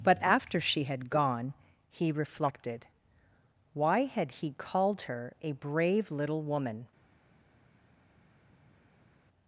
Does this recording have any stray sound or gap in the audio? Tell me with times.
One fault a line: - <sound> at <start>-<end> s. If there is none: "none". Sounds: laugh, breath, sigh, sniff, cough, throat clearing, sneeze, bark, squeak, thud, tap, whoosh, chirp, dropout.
none